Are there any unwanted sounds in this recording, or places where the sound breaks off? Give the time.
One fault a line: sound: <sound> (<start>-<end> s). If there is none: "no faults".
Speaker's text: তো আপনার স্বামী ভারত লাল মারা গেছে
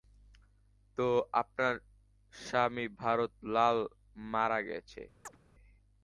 sound: chirp (5.2-5.4 s)